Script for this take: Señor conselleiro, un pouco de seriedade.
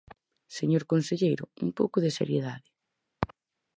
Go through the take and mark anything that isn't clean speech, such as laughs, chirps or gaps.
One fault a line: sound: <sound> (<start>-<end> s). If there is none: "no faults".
no faults